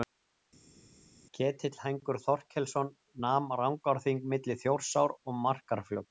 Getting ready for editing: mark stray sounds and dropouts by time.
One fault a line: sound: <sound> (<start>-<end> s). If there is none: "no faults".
no faults